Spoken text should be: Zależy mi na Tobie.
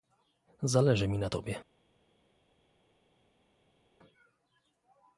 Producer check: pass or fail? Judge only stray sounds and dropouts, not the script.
pass